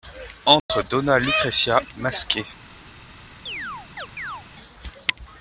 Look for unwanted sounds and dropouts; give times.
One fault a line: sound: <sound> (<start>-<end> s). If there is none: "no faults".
sound: dropout (0.6-0.7 s)
sound: chirp (3.5-4.4 s)